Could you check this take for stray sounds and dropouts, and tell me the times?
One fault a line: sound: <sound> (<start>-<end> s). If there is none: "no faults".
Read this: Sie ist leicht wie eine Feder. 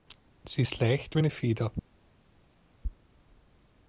no faults